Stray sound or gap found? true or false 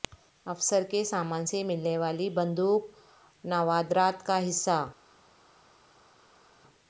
false